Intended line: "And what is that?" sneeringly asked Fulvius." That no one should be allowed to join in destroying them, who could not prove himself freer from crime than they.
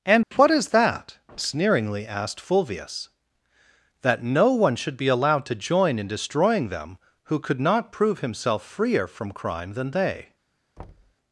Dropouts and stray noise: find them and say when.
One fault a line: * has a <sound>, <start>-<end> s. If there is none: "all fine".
* has a dropout, 0.2-0.3 s
* has a thud, 10.8-11.1 s